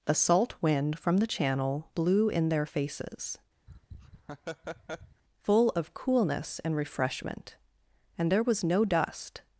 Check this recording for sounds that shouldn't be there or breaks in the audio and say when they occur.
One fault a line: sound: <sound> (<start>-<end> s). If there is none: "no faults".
sound: laugh (3.7-5.2 s)